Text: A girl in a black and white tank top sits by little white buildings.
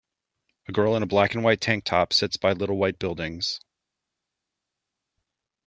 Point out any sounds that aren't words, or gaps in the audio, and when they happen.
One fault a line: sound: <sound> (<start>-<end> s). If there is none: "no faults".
no faults